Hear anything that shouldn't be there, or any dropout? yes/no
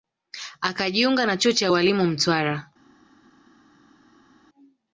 no